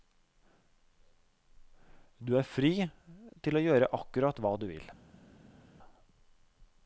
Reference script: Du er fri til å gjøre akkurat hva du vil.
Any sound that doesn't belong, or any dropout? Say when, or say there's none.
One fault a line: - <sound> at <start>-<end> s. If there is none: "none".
none